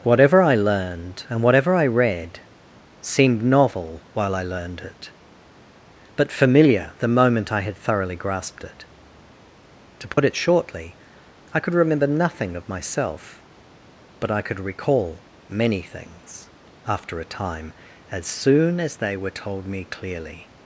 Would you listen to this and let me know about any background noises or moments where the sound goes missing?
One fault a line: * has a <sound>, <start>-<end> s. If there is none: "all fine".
* has a dropout, 10.1-10.2 s